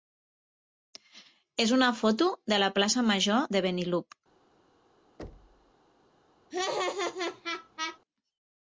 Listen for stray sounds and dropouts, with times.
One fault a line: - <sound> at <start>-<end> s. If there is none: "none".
- thud at 5.2-5.7 s
- laugh at 6.5-8.0 s